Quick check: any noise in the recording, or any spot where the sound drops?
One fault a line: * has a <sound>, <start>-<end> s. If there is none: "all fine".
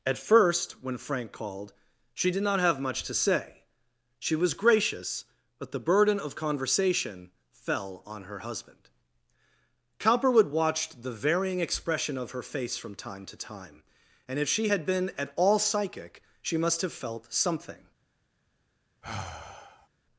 * has a sigh, 19.0-19.9 s